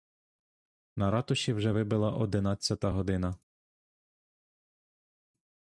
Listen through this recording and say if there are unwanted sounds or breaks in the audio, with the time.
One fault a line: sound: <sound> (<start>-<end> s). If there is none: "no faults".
no faults